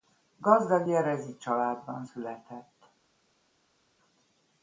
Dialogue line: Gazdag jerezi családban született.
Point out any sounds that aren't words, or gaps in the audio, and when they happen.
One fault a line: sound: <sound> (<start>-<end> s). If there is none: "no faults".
no faults